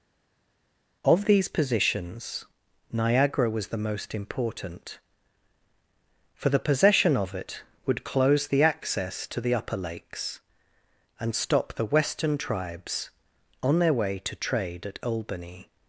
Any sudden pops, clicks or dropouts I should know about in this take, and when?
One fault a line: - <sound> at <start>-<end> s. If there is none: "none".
none